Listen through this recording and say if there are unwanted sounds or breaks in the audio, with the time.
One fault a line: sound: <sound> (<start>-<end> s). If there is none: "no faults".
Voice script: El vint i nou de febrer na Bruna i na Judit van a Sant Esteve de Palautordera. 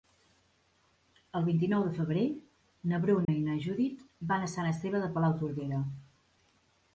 sound: dropout (3.2-3.3 s)